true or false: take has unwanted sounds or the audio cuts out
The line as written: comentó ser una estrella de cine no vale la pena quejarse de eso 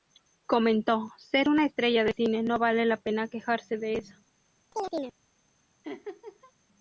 true